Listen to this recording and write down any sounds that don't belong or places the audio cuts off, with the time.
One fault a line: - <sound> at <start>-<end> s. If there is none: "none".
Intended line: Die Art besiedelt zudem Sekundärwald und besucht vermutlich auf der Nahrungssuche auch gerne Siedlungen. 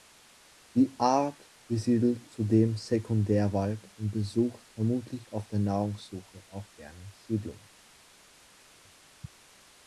none